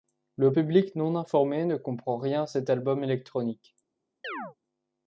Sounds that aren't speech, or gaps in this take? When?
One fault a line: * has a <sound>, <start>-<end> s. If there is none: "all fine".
* has a chirp, 4.2-4.6 s